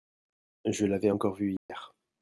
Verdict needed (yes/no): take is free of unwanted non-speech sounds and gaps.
no